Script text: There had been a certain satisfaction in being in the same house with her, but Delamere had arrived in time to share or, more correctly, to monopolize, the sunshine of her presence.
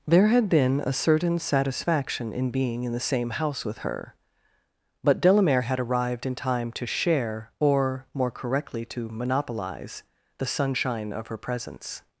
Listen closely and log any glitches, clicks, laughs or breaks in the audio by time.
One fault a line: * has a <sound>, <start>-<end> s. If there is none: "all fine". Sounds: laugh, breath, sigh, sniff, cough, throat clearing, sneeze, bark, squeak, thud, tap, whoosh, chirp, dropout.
all fine